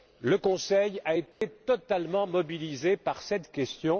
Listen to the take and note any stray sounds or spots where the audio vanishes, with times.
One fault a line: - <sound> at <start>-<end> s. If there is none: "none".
- dropout at 1.3-1.4 s